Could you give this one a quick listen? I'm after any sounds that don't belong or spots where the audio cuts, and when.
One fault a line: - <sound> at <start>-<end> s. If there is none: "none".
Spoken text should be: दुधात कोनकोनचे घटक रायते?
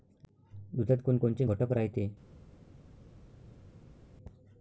none